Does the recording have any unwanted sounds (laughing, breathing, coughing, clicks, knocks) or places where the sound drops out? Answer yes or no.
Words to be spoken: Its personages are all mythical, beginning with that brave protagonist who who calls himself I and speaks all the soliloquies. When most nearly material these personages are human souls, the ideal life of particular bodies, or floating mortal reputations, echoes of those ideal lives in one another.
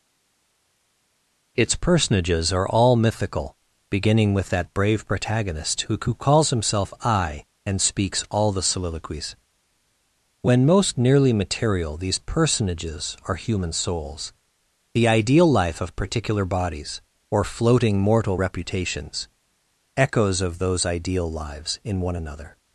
no